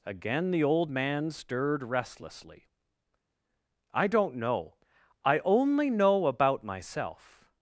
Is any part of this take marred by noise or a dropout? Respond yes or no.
no